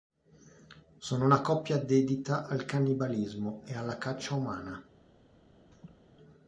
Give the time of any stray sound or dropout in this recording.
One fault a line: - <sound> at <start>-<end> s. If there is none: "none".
- laugh at 5.7-6.0 s